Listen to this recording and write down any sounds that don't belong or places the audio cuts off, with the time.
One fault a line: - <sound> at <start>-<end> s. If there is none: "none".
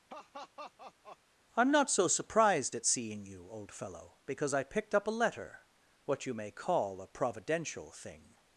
- laugh at 0.1-1.2 s